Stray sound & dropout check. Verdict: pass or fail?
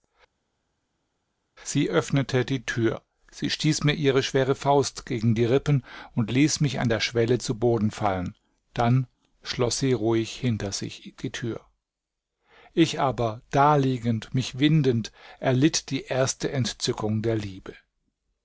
pass